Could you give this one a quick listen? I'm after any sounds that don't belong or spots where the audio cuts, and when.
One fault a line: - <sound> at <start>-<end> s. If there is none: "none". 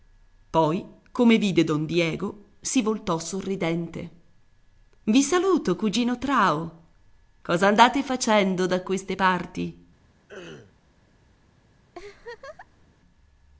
- throat clearing at 10.3-10.8 s
- laugh at 11.9-12.9 s